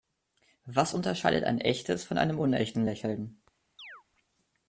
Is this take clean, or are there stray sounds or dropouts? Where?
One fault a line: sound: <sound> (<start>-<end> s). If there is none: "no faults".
sound: chirp (3.8-4.0 s)